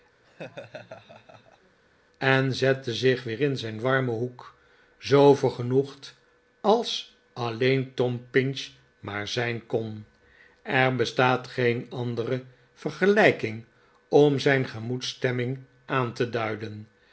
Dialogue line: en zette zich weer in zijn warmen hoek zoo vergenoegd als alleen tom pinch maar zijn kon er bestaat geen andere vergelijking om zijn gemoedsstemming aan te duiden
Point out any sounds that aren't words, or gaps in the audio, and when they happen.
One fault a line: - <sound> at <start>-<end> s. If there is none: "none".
- laugh at 0.2-1.8 s